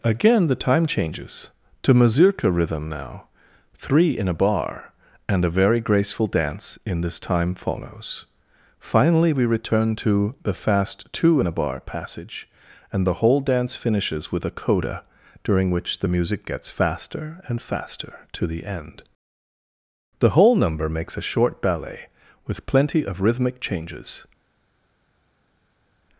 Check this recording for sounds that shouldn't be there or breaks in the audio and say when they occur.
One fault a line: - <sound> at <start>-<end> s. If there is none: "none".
none